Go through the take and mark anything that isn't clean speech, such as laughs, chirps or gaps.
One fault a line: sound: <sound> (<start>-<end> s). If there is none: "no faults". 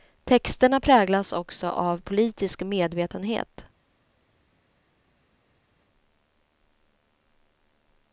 no faults